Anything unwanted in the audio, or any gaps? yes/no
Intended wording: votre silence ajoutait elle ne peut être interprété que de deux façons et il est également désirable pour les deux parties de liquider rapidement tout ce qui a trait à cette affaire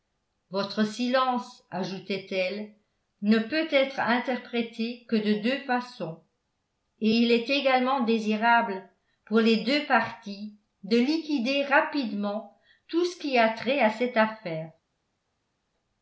no